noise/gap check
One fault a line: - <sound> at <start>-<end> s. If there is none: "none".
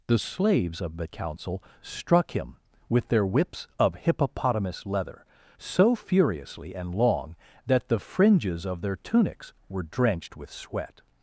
none